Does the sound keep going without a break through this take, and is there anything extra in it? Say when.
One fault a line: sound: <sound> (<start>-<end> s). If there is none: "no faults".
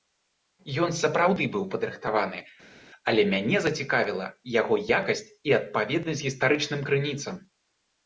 no faults